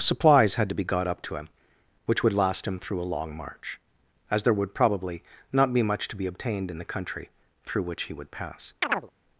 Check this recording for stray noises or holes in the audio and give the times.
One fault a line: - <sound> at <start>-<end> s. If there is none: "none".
- chirp at 8.8-9.1 s